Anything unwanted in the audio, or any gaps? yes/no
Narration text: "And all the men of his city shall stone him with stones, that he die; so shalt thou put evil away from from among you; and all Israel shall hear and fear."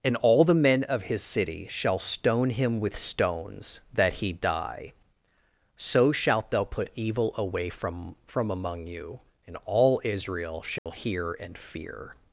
yes